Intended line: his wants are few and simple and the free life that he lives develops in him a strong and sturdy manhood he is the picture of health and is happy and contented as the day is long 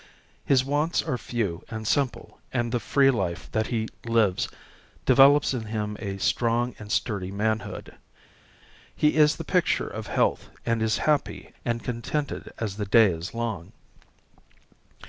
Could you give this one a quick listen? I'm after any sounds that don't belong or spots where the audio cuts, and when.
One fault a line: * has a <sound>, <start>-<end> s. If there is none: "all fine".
all fine